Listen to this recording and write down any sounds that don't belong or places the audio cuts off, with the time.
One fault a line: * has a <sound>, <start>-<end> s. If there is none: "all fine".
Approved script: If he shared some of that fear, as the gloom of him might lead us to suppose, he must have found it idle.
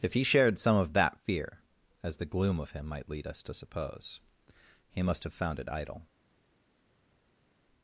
all fine